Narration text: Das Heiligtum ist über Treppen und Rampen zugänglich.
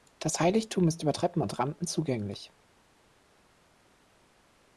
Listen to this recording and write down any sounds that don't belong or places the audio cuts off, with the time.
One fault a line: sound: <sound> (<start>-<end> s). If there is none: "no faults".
no faults